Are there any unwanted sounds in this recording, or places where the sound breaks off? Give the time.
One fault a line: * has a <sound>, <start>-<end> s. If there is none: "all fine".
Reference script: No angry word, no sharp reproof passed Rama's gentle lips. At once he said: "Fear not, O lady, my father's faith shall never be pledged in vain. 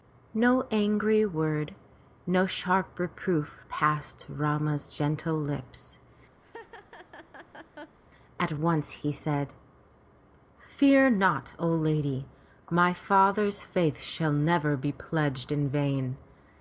* has a laugh, 6.4-8.0 s